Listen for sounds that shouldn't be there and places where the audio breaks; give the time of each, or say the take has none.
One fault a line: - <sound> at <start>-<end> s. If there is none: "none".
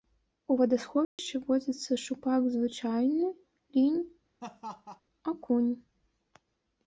- dropout at 1.0-1.2 s
- laugh at 4.4-5.0 s